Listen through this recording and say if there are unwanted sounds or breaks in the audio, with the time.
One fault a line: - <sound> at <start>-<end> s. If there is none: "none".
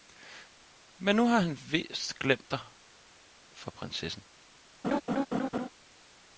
- laugh at 4.8-5.7 s